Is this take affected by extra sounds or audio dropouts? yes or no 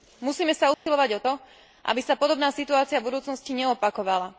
yes